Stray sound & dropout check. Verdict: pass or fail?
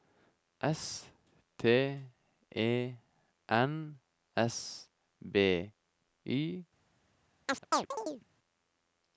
fail